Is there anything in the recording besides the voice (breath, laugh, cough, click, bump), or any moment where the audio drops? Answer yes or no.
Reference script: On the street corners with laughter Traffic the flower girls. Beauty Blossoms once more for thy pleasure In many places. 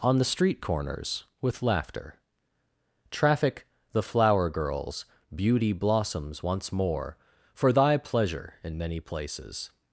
no